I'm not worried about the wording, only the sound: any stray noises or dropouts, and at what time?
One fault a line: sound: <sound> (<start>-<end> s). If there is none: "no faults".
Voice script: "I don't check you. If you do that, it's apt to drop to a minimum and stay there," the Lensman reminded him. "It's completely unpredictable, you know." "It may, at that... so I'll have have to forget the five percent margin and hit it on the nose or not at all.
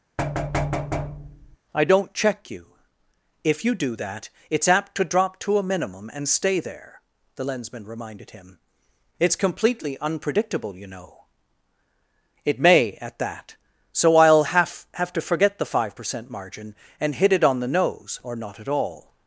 sound: thud (0.2-1.6 s)